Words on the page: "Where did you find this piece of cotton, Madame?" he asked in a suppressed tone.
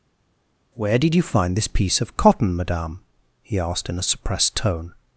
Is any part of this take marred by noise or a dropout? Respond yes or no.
no